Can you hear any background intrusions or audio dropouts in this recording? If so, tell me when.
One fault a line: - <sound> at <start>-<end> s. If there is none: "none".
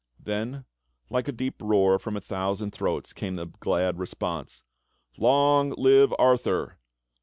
none